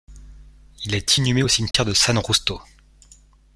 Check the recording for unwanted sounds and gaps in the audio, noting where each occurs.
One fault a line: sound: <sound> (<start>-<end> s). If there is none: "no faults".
sound: dropout (1.7-1.7 s)